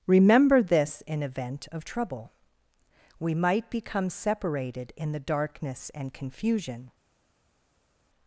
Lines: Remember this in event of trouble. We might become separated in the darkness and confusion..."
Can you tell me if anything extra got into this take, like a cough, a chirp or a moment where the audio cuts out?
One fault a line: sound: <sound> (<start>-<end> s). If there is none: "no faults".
no faults